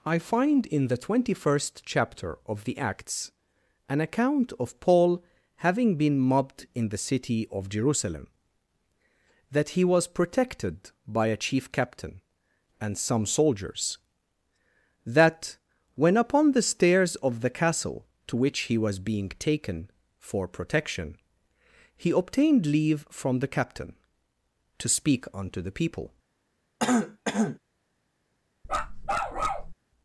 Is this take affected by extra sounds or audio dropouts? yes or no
yes